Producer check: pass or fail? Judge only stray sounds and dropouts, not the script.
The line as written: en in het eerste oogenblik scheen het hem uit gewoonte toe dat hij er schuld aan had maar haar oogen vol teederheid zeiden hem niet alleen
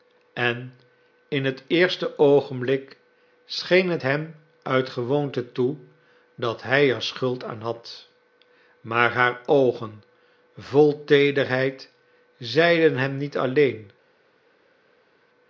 pass